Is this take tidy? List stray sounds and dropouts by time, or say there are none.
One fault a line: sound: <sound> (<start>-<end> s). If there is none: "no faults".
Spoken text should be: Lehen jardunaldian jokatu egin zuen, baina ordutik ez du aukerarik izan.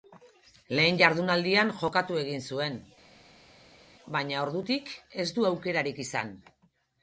no faults